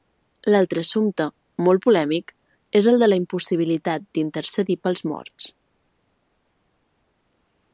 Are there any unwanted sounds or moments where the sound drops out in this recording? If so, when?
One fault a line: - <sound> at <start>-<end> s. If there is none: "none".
none